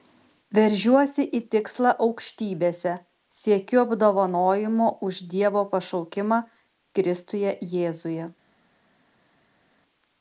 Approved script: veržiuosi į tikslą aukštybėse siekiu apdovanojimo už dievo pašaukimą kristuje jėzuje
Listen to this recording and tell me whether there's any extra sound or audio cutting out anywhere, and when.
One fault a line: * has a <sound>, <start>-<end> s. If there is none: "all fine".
all fine